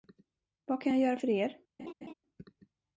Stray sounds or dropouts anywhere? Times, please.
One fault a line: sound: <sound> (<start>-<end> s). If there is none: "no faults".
sound: laugh (1.8-2.1 s)